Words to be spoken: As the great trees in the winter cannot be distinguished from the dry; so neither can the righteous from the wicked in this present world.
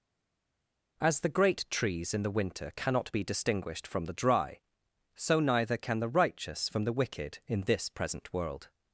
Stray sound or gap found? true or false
false